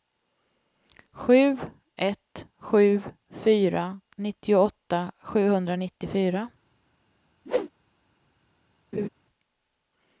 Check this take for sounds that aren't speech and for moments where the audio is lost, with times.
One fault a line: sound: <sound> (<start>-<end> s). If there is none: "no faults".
sound: whoosh (7.4-7.7 s)
sound: laugh (8.9-9.1 s)